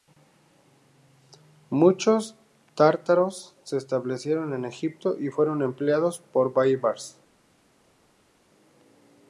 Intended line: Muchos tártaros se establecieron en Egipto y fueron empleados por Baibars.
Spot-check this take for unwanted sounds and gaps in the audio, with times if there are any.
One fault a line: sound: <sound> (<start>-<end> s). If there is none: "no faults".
no faults